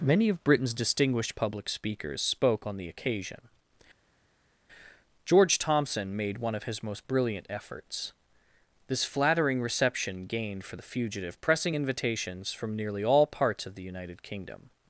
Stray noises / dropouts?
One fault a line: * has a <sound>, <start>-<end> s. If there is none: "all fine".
all fine